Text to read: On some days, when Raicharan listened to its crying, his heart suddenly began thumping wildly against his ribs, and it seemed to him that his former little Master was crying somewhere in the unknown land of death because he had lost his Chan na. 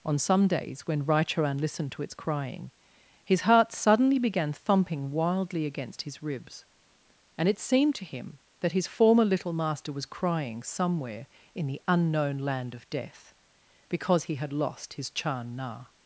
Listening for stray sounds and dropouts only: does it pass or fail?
pass